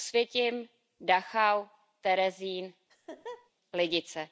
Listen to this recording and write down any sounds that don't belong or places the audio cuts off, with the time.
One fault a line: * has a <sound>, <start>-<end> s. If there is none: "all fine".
* has a laugh, 2.9-3.5 s